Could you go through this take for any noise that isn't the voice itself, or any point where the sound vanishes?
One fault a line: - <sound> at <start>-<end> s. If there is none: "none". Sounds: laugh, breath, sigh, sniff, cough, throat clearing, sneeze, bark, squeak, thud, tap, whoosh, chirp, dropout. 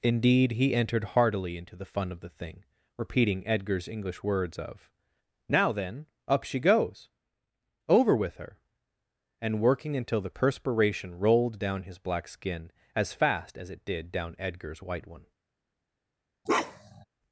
- bark at 16.5-17.1 s